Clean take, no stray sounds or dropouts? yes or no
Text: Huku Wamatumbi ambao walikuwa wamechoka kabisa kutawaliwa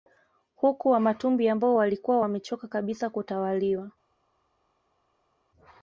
yes